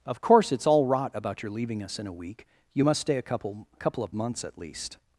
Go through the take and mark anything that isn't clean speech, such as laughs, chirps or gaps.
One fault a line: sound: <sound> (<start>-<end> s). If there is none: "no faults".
no faults